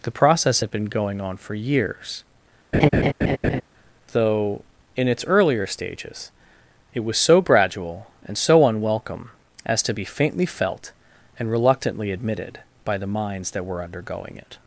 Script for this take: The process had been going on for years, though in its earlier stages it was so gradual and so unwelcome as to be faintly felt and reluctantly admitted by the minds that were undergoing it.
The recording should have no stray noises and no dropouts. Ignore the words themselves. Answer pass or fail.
fail